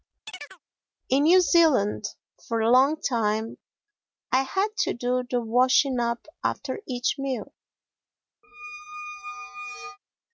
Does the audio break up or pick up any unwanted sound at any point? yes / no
yes